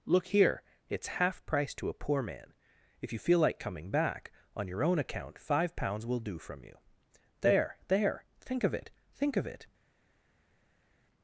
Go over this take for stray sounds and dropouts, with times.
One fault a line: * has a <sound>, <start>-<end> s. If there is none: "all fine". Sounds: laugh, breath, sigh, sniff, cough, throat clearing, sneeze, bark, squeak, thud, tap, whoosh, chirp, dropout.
all fine